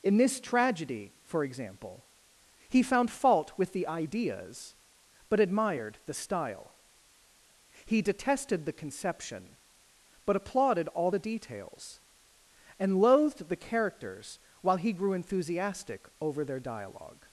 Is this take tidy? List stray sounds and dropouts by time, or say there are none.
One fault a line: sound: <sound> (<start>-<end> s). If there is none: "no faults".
no faults